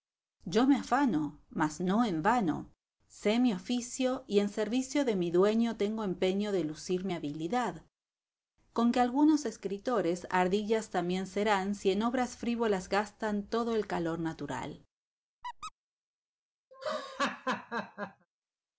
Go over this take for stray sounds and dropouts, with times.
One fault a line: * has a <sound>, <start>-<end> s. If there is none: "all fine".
* has a squeak, 15.4-15.7 s
* has a laugh, 16.7-18.3 s